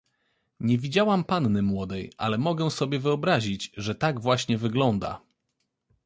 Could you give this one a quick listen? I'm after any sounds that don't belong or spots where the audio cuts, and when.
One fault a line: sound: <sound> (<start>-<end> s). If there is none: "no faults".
no faults